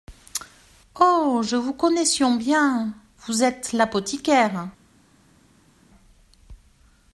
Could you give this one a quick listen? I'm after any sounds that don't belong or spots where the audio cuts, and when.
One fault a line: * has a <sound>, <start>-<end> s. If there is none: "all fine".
all fine